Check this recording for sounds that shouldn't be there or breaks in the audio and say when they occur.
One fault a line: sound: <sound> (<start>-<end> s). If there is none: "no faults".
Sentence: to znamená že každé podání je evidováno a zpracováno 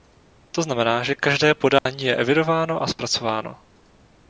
sound: dropout (1.8-1.9 s)